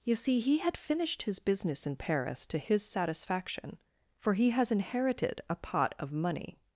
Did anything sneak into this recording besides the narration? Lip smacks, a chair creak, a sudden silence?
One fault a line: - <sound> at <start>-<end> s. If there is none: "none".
none